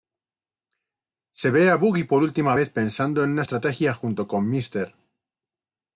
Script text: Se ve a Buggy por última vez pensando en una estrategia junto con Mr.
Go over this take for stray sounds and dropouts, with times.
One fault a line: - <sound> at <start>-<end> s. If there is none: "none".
none